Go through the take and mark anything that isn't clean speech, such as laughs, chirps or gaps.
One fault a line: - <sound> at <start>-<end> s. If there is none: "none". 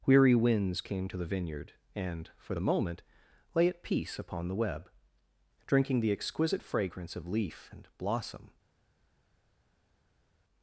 none